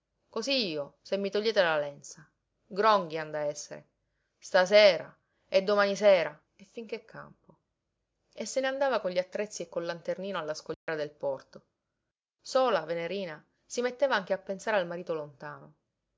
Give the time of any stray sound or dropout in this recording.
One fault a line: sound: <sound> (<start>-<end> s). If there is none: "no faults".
sound: dropout (10.7-10.9 s)